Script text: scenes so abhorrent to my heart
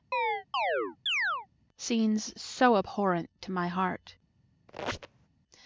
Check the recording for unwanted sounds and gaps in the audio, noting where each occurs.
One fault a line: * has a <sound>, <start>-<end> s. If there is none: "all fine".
* has a chirp, 0.1-1.5 s
* has a squeak, 4.7-5.3 s